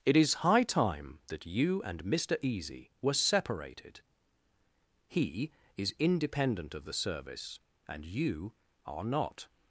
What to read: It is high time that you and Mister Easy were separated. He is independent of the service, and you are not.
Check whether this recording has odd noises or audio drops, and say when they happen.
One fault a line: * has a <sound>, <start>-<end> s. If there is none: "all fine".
all fine